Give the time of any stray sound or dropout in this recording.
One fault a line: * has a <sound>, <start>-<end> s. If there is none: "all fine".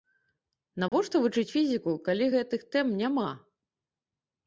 * has a dropout, 0.9-0.9 s